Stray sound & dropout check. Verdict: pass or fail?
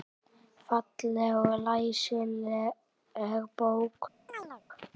fail